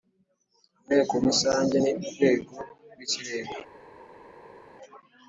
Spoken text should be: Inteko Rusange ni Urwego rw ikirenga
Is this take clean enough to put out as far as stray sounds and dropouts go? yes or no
yes